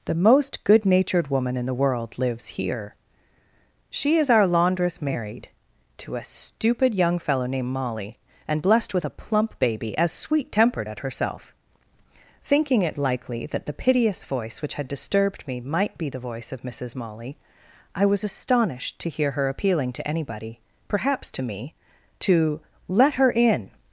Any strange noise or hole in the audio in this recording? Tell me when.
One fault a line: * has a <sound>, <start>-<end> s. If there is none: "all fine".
all fine